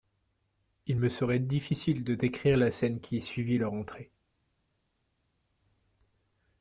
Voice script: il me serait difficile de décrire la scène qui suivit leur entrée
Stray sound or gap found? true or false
false